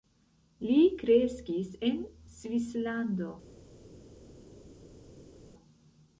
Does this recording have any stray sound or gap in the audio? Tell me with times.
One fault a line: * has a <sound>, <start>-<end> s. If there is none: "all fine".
all fine